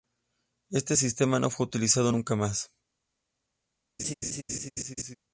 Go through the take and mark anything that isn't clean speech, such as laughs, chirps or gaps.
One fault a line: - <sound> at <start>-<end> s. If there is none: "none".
- laugh at 4.0-5.2 s